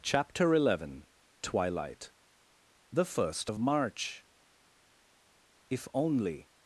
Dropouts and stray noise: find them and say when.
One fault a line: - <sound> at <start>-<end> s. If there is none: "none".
none